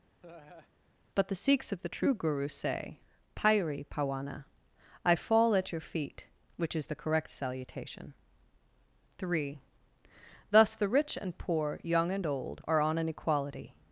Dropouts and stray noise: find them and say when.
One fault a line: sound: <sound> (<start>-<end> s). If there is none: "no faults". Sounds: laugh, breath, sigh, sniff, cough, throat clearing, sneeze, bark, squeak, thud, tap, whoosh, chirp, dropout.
sound: laugh (0.2-0.7 s)